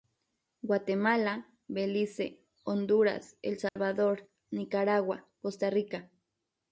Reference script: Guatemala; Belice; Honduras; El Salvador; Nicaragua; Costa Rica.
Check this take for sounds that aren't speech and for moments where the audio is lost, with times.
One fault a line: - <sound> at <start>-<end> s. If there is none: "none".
- dropout at 3.7-3.8 s